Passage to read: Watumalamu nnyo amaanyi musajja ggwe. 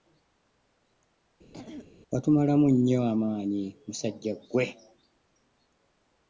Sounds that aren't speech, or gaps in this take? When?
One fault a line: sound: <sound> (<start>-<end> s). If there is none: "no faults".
sound: throat clearing (1.5-1.9 s)